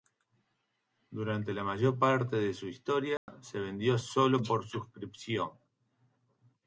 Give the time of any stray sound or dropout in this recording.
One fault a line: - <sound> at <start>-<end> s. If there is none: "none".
- dropout at 3.2-3.3 s